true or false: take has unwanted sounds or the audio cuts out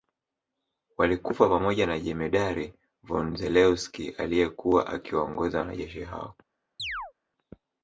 true